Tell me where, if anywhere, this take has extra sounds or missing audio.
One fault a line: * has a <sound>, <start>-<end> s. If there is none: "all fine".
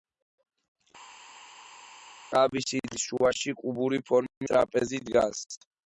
all fine